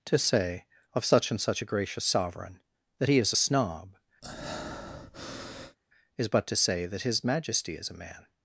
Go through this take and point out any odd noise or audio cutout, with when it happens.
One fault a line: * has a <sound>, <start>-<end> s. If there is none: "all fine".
* has a breath, 4.2-5.8 s